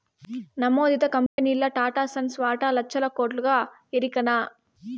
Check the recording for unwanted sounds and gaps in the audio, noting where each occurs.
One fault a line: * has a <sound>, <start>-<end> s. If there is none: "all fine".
* has a dropout, 1.3-1.4 s